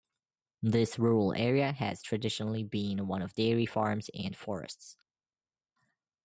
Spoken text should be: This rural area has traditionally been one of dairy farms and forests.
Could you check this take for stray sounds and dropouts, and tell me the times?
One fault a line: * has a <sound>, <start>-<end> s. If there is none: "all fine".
all fine